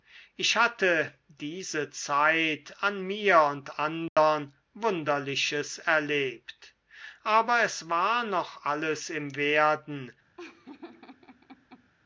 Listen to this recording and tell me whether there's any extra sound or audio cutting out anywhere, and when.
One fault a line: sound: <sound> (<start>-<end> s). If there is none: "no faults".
sound: dropout (4.1-4.2 s)
sound: laugh (10.4-11.9 s)